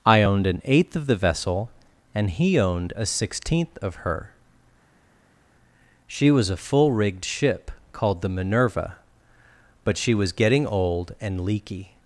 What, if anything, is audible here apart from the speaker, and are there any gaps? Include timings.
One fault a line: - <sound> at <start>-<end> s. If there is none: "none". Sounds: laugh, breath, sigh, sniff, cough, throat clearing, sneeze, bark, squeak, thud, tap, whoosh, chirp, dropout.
none